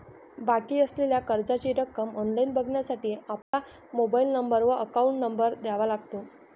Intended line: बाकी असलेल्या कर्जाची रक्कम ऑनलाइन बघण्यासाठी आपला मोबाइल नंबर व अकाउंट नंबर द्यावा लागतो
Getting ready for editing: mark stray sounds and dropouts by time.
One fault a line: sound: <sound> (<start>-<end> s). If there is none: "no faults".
sound: dropout (3.4-3.5 s)